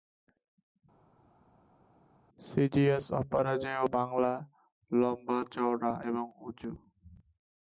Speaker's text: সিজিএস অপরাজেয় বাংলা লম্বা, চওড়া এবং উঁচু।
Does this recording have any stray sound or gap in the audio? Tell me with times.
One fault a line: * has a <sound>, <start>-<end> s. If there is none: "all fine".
all fine